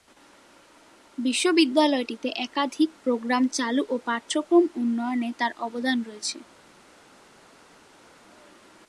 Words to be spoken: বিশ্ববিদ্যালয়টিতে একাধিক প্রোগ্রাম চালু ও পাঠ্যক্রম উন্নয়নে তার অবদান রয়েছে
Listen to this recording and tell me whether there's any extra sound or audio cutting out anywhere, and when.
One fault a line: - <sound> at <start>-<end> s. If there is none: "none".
none